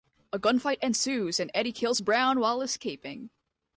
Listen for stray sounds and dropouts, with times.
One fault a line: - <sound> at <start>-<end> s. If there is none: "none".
none